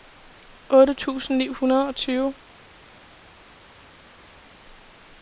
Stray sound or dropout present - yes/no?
no